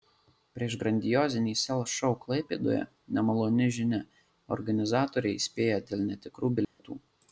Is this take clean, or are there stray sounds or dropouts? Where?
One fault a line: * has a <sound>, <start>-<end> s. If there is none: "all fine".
* has a dropout, 6.6-6.8 s